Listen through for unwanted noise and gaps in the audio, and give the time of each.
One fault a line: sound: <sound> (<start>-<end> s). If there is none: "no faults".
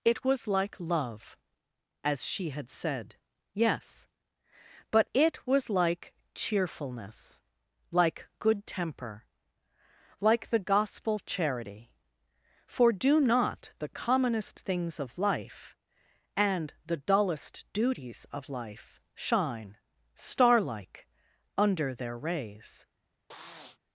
sound: sniff (23.3-23.8 s)